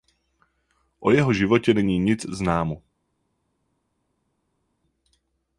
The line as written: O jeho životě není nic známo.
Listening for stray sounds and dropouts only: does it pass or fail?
pass